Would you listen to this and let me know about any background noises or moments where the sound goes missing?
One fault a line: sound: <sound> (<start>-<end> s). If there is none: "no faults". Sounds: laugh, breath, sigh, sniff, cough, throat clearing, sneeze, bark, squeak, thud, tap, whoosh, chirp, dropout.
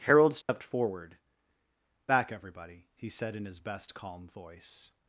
sound: dropout (0.4-0.5 s)